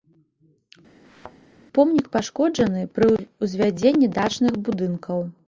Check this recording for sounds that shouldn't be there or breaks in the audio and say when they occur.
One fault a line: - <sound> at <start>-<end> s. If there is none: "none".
- thud at 1.0-1.4 s